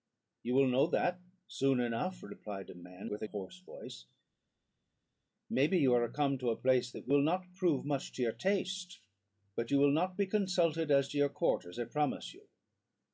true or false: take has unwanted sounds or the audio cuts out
false